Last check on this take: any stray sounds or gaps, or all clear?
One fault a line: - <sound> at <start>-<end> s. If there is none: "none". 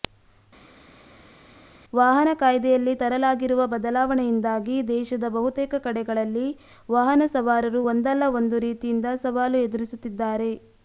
none